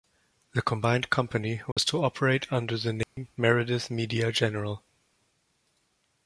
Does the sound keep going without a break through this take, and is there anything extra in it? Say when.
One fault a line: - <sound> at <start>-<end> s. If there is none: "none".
- dropout at 1.7-1.8 s
- dropout at 3.0-3.2 s